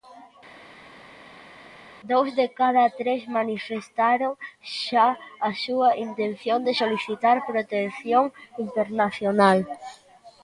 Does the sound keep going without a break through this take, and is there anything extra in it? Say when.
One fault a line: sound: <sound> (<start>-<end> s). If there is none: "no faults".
no faults